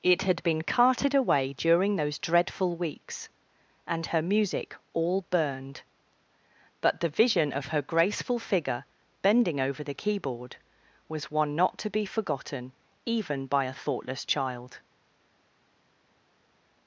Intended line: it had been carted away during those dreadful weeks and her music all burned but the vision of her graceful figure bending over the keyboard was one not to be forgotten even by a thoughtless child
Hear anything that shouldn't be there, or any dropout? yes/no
no